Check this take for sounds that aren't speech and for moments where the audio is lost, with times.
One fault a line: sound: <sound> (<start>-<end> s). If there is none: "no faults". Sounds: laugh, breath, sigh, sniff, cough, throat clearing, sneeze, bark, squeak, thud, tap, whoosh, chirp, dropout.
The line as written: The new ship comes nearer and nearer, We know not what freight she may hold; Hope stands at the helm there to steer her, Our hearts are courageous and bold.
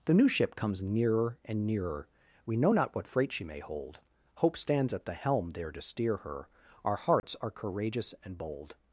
sound: dropout (7.2-7.2 s)